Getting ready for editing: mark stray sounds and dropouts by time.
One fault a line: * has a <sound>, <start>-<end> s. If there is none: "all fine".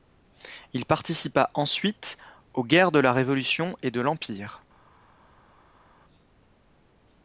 all fine